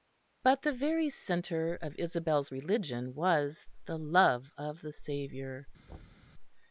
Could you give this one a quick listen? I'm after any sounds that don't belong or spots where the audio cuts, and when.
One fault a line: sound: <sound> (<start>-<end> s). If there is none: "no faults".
sound: thud (5.9-6.3 s)